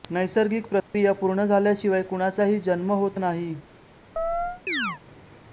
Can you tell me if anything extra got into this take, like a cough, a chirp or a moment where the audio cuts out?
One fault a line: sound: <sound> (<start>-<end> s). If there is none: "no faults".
sound: dropout (0.8-0.9 s)
sound: chirp (4.2-5.0 s)